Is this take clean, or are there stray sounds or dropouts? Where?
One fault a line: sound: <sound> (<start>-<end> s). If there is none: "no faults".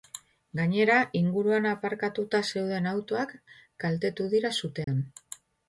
sound: dropout (4.8-4.9 s)